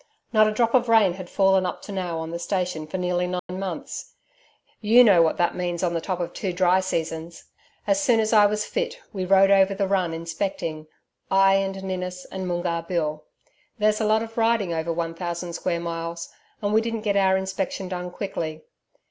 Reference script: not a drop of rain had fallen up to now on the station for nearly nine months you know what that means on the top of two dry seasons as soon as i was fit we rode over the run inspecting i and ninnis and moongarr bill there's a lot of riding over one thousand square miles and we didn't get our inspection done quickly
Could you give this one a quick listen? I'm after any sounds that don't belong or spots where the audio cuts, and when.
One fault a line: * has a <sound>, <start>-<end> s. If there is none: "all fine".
* has a dropout, 3.4-3.5 s